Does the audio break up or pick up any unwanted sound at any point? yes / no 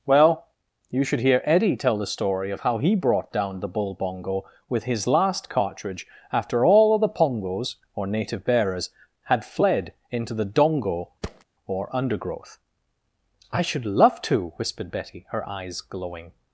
yes